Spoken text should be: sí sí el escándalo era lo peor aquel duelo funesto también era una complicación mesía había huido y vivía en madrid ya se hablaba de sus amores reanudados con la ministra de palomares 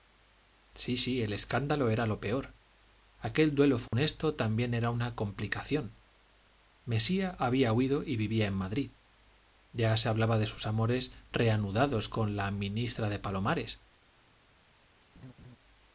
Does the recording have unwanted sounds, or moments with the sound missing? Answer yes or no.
yes